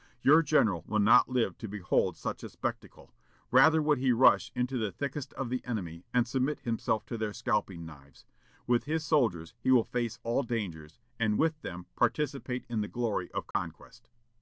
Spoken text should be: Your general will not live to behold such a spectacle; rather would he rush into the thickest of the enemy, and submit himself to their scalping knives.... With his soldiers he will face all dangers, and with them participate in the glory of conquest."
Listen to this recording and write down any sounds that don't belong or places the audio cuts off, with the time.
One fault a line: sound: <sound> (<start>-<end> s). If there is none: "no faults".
sound: dropout (13.5-13.5 s)